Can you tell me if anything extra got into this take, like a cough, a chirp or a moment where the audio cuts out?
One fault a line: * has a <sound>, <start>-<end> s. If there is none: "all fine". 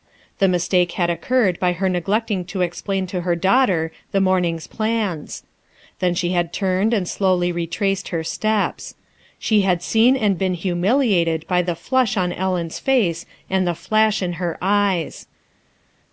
all fine